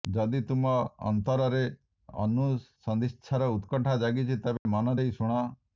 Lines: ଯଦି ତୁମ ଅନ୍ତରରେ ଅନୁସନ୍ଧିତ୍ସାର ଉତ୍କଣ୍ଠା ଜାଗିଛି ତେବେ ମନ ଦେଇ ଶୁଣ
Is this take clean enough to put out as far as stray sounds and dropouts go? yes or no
no